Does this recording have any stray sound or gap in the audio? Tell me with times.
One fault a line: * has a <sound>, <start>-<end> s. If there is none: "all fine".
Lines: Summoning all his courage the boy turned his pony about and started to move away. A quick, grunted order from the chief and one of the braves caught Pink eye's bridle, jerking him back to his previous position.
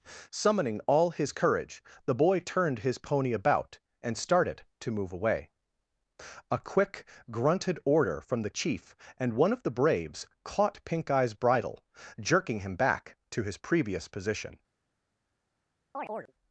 * has a chirp, 15.9-16.3 s